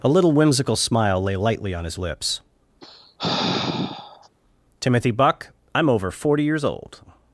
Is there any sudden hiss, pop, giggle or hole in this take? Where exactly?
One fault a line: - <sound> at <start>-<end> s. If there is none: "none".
- sigh at 2.8-4.3 s